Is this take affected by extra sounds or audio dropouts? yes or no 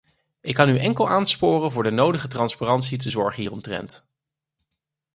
no